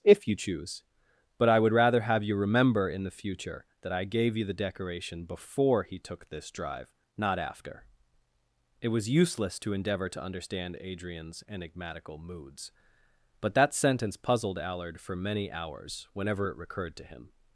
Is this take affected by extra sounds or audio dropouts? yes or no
no